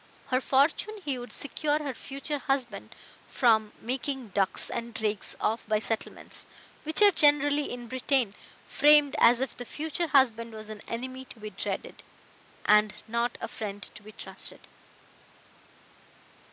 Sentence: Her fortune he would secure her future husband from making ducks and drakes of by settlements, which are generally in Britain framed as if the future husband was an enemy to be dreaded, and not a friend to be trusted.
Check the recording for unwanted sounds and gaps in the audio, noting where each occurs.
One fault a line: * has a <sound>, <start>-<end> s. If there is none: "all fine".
all fine